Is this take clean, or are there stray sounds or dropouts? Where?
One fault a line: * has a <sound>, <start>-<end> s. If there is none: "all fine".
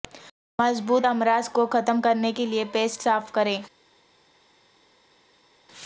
all fine